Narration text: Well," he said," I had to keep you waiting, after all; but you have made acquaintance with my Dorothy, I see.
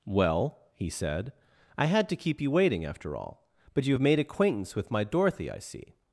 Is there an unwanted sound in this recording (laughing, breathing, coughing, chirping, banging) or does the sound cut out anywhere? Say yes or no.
no